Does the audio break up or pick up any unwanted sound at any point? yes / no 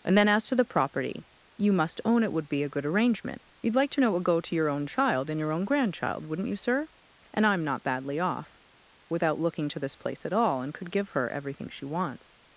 no